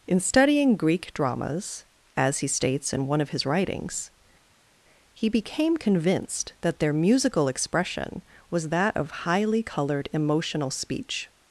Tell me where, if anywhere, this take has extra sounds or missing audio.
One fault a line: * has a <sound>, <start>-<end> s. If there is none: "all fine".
all fine